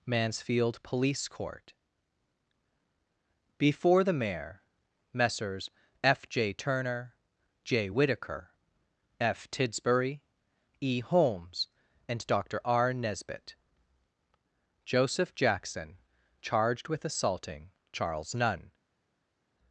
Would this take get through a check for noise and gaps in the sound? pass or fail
pass